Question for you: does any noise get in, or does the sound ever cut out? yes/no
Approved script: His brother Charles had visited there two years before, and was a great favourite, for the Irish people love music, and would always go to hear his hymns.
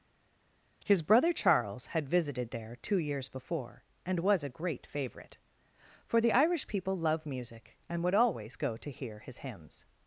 no